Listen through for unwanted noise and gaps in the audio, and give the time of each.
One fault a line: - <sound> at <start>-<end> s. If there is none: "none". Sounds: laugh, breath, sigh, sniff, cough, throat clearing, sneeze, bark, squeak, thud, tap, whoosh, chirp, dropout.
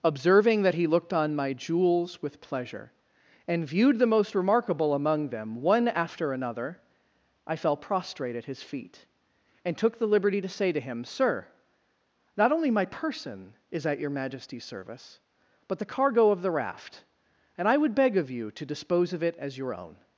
none